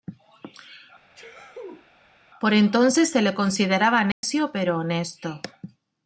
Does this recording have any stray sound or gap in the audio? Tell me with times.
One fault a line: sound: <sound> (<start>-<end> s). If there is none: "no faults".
sound: sneeze (1.1-1.9 s)
sound: dropout (4.1-4.2 s)